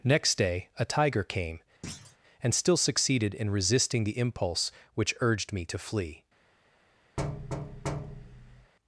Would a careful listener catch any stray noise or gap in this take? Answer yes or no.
yes